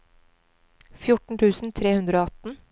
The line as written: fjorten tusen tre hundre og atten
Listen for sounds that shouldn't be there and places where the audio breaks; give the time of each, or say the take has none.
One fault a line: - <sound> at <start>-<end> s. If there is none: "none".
none